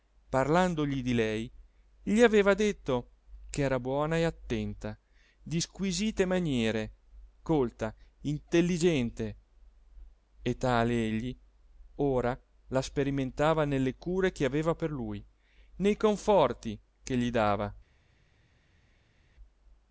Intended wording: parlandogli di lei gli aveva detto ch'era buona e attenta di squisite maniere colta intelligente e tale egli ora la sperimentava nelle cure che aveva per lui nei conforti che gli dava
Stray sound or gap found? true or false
false